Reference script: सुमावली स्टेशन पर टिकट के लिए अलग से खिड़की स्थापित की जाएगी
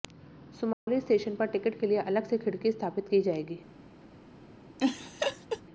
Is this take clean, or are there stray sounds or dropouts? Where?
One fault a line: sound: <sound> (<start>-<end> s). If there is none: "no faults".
sound: dropout (0.7-0.9 s)
sound: laugh (4.8-5.6 s)